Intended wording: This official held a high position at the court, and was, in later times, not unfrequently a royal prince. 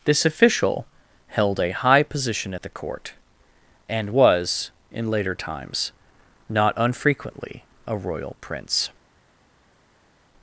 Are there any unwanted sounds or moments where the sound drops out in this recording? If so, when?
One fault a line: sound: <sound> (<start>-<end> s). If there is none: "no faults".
no faults